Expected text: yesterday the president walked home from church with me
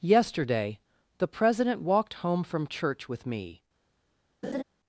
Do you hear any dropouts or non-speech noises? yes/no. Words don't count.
yes